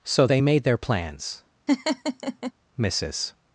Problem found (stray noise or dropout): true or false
true